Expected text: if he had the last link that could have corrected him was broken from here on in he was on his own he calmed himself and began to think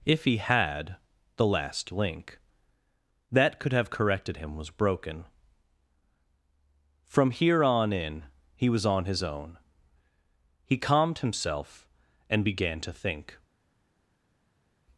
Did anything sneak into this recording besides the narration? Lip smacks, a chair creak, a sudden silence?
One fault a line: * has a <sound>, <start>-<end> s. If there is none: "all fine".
all fine